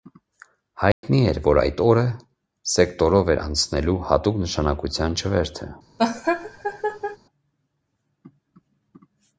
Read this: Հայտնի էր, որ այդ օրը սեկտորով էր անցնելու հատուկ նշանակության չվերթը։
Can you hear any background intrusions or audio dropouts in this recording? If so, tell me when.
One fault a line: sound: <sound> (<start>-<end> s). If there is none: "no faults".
sound: dropout (0.9-1.0 s)
sound: laugh (6.0-7.2 s)